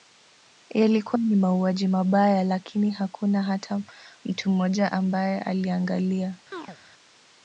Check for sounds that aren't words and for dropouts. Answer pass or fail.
fail